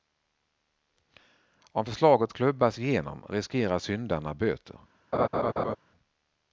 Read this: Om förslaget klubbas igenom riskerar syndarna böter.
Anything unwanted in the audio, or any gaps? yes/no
yes